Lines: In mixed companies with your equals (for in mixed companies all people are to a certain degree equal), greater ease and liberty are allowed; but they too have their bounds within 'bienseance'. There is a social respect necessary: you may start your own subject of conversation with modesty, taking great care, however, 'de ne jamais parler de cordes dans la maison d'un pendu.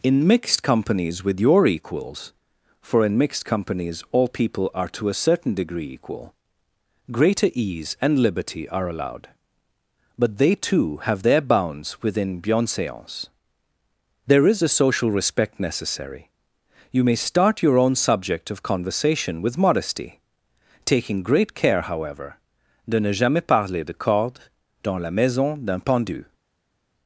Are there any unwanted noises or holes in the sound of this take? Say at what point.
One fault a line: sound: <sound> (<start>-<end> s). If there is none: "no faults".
no faults